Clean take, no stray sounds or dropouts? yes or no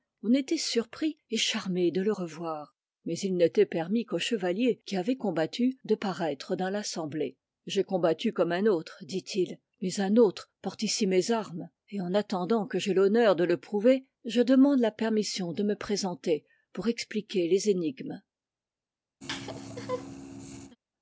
no